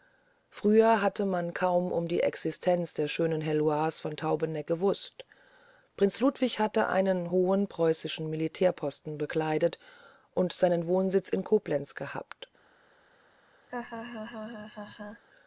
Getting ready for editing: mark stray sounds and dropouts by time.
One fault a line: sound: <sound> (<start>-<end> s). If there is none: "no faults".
sound: laugh (13.7-15.2 s)